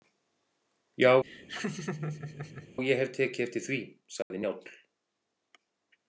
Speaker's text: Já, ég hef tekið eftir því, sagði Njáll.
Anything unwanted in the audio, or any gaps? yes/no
yes